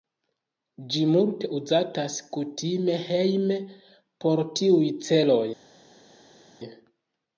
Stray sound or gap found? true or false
false